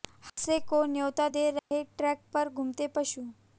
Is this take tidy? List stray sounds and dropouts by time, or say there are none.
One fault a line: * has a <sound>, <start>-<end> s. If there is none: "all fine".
* has a dropout, 1.6-1.7 s